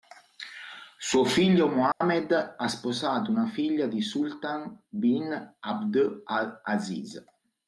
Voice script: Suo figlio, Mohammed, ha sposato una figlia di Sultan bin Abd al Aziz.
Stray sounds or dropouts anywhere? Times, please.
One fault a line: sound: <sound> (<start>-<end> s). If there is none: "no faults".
sound: dropout (1.9-2.0 s)